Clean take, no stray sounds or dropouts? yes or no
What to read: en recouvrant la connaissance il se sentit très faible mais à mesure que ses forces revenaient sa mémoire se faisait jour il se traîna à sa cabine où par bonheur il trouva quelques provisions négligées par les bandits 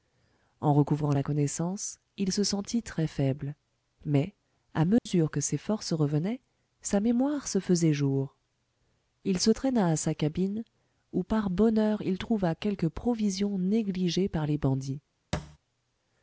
no